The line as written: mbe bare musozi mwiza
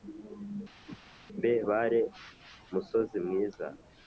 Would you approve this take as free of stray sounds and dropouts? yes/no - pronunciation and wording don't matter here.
no